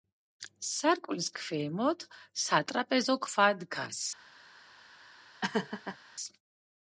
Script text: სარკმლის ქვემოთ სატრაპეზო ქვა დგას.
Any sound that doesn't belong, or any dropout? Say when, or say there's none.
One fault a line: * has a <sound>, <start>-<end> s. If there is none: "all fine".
* has a laugh, 5.4-6.0 s